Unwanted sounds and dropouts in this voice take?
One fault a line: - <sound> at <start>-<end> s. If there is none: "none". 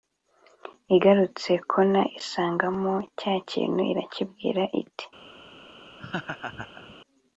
- laugh at 6.0-7.0 s